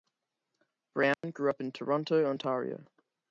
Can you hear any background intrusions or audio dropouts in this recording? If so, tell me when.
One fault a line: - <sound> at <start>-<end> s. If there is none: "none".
- dropout at 1.1-1.2 s